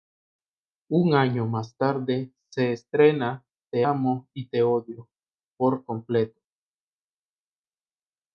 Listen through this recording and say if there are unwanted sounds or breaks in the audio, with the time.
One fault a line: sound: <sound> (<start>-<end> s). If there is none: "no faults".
no faults